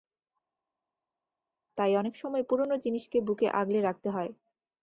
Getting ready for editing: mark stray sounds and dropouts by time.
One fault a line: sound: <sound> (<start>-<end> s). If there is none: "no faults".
no faults